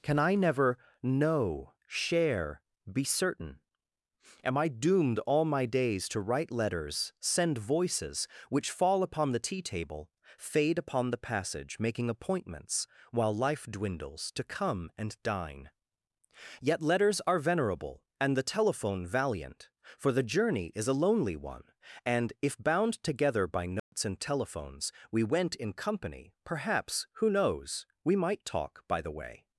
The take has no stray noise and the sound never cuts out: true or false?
false